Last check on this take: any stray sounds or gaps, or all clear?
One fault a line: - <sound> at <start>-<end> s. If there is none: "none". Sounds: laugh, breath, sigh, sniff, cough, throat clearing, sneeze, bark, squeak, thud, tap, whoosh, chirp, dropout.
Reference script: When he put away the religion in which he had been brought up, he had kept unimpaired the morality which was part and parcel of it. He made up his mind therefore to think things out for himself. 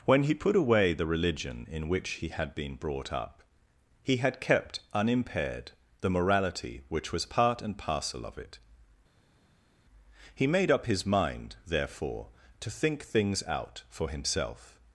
none